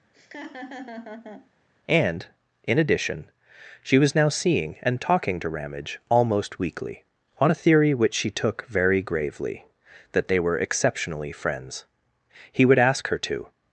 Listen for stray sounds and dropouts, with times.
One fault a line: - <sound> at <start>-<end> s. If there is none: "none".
- laugh at 0.1-1.5 s